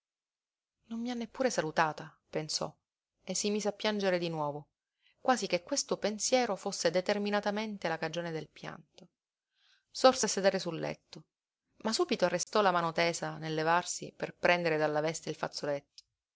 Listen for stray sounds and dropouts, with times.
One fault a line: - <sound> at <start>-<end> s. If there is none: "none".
- dropout at 12.4-12.5 s